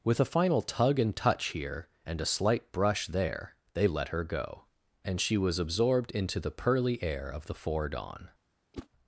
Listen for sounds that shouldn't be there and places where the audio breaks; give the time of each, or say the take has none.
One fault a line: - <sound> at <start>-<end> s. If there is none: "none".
- whoosh at 8.7-8.9 s